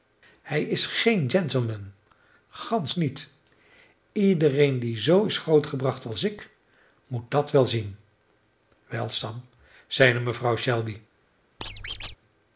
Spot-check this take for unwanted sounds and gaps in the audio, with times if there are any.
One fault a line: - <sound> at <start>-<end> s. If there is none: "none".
- squeak at 11.6-12.2 s